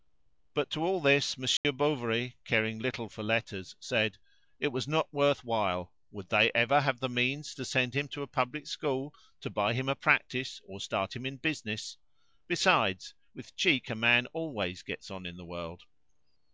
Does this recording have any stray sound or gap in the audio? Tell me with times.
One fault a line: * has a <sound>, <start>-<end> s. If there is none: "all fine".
* has a dropout, 1.6-1.6 s